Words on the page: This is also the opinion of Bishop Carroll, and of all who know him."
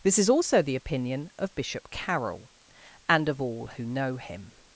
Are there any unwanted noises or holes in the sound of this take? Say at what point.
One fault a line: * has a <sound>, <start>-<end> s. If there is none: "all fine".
all fine